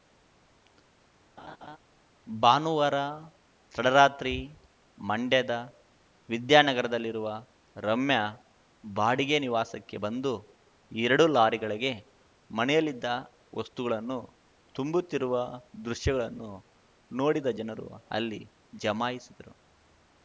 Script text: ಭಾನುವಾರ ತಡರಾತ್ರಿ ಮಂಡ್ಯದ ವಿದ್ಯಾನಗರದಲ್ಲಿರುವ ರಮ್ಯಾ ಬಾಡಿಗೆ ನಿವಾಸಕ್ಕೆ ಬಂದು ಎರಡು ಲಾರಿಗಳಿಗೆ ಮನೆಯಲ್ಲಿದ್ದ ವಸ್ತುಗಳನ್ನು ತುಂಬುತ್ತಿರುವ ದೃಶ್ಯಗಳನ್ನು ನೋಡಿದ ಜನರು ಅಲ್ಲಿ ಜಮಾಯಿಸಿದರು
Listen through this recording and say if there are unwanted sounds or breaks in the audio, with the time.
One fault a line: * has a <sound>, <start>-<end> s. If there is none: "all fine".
* has a laugh, 1.4-1.8 s